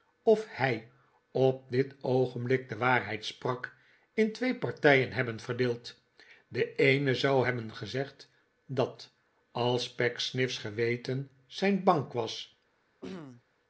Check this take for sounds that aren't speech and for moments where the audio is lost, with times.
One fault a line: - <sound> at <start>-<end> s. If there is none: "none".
- throat clearing at 13.0-13.4 s